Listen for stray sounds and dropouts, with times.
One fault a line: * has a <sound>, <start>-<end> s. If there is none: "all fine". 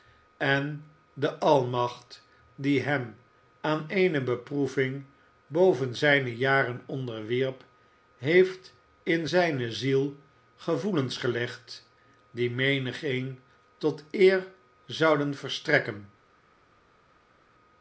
all fine